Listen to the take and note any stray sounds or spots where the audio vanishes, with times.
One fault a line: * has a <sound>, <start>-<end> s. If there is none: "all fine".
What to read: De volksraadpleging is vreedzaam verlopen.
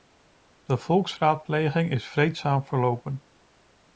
all fine